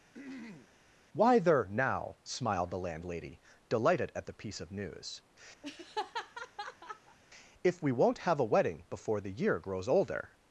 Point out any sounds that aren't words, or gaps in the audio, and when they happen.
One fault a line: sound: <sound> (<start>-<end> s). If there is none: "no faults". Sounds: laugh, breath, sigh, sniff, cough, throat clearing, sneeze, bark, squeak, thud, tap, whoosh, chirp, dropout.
sound: throat clearing (0.1-0.7 s)
sound: laugh (5.6-7.2 s)